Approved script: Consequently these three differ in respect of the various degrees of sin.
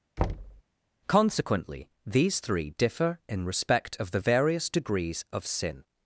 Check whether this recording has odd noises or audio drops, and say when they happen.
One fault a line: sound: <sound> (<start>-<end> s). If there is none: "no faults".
sound: thud (0.2-0.6 s)